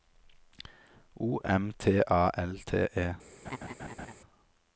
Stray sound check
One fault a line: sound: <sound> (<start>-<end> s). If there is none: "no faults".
sound: laugh (3.4-4.1 s)